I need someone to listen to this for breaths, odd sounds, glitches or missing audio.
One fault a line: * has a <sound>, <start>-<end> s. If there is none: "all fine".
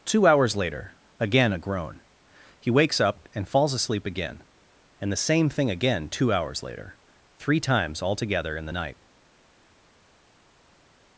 all fine